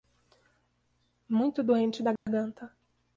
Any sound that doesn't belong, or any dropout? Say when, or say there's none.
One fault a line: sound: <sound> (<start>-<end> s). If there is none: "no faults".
sound: dropout (2.2-2.3 s)